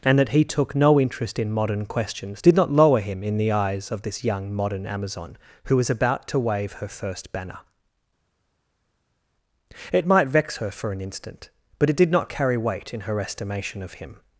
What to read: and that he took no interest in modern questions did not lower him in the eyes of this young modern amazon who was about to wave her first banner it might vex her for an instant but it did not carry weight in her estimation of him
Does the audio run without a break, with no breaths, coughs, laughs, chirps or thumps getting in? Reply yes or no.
yes